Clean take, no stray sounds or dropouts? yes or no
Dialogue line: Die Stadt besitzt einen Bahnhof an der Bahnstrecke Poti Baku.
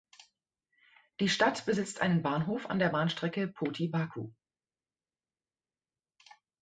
yes